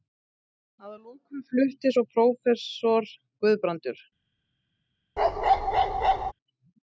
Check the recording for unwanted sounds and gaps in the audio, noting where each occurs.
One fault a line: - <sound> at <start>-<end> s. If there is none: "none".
- bark at 5.2-6.3 s